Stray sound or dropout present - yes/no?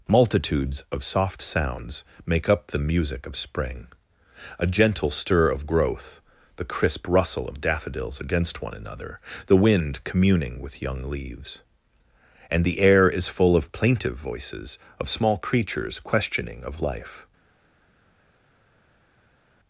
no